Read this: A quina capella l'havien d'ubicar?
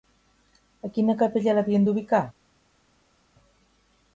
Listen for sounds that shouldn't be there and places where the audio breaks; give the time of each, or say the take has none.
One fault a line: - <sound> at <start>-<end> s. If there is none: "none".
none